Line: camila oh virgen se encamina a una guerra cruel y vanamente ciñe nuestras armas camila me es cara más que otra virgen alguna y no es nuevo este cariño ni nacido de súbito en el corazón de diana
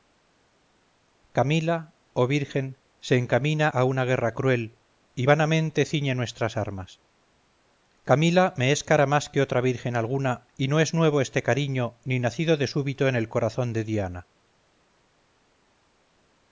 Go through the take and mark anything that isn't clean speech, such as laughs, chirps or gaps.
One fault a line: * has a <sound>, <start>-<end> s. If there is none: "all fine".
all fine